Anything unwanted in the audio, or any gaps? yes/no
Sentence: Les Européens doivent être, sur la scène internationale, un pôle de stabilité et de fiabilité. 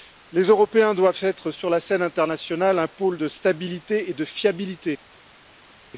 no